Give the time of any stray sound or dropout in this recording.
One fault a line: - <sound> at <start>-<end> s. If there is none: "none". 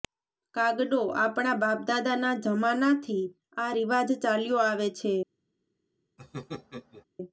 - laugh at 6.2-7.0 s